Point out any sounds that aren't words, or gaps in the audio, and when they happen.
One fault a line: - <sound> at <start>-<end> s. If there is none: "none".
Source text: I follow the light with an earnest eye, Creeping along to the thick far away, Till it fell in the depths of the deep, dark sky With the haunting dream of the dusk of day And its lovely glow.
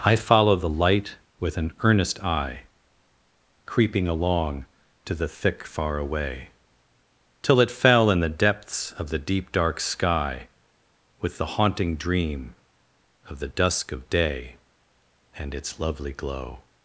none